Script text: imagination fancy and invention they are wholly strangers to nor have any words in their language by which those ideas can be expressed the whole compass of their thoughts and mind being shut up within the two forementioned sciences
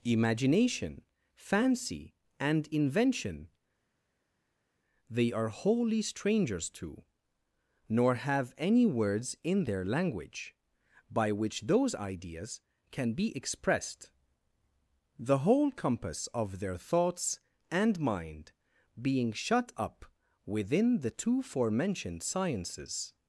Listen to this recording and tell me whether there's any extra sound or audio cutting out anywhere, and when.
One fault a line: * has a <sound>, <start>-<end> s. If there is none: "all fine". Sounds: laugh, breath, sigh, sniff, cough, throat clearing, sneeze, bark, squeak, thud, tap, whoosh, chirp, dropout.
all fine